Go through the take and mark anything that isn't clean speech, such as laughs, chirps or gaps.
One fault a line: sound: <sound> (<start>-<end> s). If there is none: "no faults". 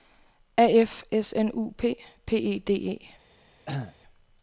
sound: cough (3.7-4.0 s)